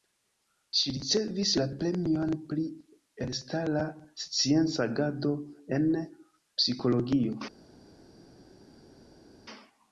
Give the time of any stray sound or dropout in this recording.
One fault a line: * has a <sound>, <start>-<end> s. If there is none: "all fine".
all fine